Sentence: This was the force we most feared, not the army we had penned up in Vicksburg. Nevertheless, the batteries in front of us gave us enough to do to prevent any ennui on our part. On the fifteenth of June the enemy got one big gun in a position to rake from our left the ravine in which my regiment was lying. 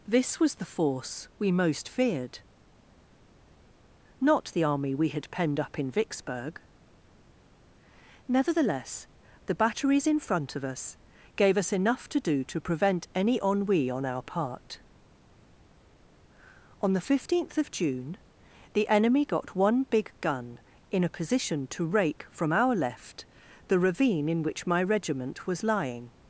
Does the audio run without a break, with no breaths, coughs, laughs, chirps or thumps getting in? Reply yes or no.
yes